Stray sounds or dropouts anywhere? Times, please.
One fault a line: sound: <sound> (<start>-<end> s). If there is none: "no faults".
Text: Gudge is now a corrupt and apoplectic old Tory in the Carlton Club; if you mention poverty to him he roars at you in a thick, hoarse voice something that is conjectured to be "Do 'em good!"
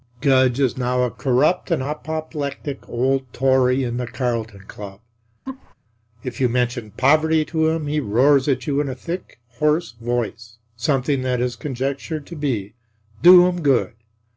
sound: laugh (5.5-5.7 s)